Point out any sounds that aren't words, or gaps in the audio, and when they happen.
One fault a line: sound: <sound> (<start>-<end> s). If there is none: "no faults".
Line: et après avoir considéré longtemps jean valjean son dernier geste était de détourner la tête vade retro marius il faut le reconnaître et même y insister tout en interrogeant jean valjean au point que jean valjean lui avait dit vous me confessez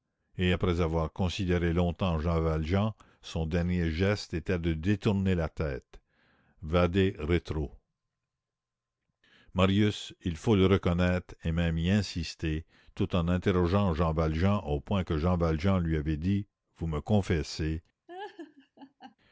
sound: laugh (18.1-19.2 s)